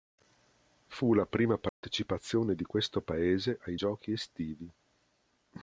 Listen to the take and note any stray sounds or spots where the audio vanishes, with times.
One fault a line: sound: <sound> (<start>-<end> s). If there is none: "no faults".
sound: dropout (1.7-1.8 s)